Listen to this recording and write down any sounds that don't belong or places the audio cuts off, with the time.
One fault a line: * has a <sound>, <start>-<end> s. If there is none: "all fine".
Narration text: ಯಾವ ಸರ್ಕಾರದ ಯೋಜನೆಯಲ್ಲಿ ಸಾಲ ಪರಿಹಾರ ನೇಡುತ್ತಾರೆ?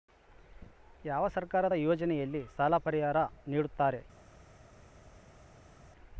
all fine